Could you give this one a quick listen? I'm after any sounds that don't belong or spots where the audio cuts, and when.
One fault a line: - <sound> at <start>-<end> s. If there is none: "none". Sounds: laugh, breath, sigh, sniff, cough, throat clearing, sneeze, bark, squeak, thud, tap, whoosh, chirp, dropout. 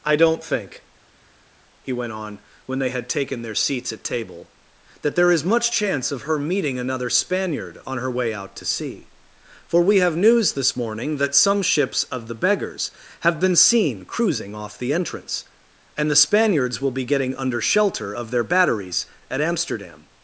none